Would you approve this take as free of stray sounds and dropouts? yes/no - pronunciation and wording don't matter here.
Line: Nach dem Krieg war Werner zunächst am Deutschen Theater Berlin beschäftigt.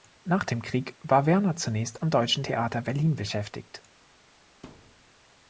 no